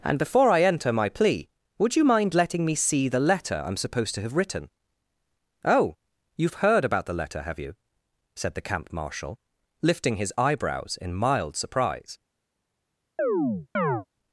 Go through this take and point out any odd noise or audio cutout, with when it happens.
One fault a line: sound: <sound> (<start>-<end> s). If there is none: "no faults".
sound: chirp (13.2-14.1 s)